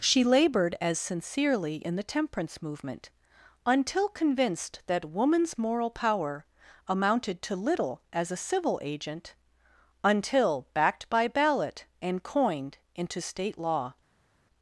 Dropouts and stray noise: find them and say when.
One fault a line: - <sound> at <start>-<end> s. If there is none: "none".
none